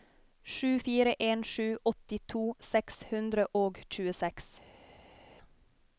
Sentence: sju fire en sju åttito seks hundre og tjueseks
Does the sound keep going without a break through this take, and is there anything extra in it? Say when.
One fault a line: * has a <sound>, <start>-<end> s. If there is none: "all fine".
all fine